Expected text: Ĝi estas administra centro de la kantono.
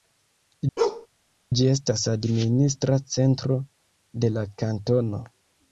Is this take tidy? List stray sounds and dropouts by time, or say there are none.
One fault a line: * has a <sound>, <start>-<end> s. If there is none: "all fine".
* has a bark, 0.8-1.1 s